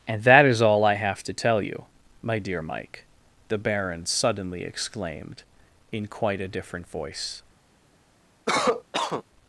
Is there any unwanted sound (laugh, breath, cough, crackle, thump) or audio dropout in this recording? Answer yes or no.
yes